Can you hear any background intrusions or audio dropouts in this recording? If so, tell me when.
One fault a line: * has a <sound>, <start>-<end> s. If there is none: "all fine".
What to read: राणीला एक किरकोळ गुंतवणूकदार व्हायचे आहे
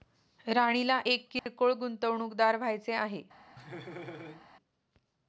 * has a dropout, 1.4-1.5 s
* has a laugh, 3.6-4.5 s